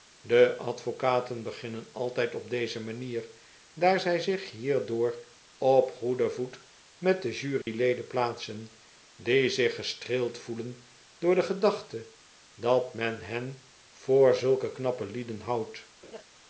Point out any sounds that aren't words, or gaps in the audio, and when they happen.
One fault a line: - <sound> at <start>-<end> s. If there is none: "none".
- dropout at 7.6-7.7 s
- laugh at 16.0-16.2 s